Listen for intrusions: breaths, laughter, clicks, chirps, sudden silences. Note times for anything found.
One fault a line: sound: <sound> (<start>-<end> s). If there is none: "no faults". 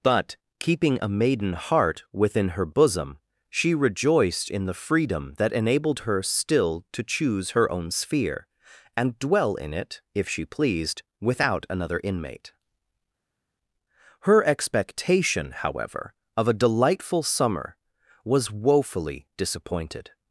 no faults